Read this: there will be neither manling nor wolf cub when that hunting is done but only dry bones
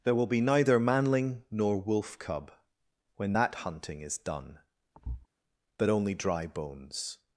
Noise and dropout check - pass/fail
fail